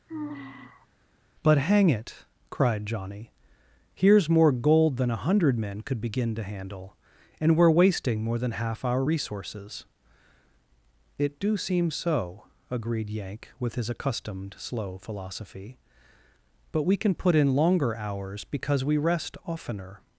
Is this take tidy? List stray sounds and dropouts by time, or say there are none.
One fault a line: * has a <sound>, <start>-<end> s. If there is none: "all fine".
* has a sigh, 0.1-0.9 s